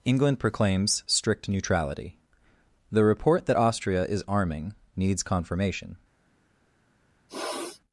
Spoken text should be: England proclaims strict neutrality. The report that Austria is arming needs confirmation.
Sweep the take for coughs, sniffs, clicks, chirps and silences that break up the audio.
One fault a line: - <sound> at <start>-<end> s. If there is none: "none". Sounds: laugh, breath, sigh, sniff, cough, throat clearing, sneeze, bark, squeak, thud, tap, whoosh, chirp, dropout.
- sniff at 7.3-7.8 s